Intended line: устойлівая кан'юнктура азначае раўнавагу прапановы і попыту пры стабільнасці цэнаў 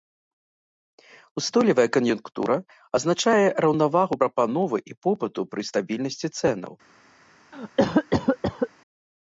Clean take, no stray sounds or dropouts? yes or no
no